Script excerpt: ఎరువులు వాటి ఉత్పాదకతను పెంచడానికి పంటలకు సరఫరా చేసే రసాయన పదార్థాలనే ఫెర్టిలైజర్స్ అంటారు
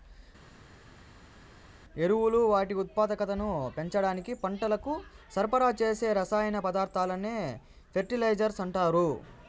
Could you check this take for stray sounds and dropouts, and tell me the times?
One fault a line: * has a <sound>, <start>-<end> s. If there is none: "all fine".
all fine